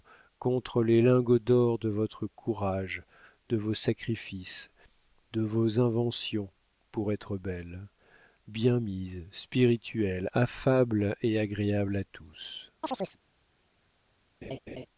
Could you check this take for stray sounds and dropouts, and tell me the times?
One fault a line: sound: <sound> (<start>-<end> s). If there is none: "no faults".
sound: chirp (12.8-13.2 s)
sound: laugh (14.4-14.9 s)